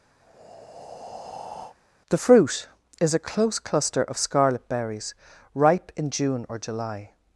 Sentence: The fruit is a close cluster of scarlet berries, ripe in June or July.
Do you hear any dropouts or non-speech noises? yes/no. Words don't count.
yes